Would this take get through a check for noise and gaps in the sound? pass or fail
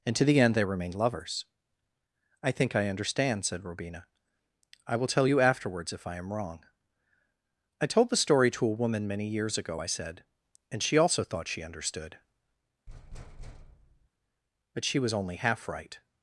fail